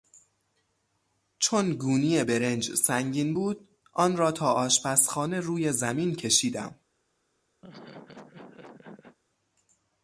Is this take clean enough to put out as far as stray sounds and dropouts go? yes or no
no